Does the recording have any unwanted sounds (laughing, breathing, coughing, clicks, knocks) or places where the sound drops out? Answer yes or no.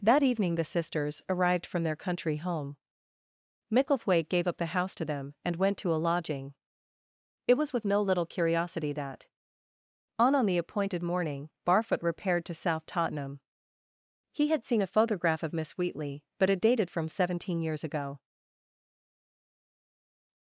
no